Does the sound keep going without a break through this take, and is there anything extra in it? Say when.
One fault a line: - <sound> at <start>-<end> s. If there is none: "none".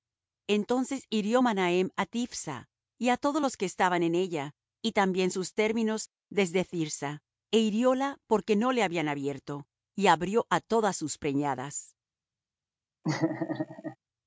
- laugh at 13.0-14.0 s